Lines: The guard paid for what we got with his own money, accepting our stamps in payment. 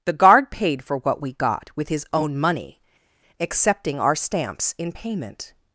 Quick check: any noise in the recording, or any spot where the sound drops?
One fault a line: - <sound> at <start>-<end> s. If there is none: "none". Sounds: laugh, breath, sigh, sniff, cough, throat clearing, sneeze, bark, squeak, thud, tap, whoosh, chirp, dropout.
none